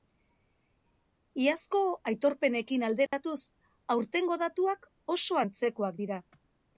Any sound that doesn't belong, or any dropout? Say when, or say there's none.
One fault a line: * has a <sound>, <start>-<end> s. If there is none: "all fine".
* has a dropout, 3.1-3.1 s